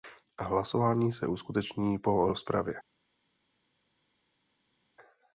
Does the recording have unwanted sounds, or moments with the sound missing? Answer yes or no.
no